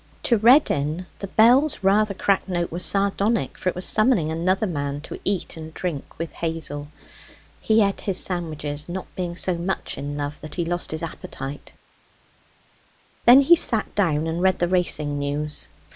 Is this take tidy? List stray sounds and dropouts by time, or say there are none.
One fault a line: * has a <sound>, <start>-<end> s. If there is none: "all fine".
all fine